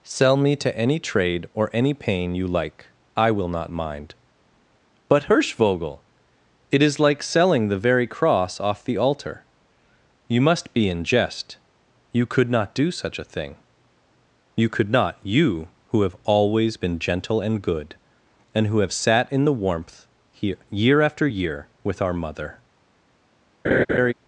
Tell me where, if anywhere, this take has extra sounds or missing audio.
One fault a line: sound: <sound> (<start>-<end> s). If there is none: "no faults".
sound: laugh (23.6-24.1 s)